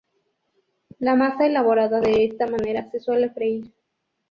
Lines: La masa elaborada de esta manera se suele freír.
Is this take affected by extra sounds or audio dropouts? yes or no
no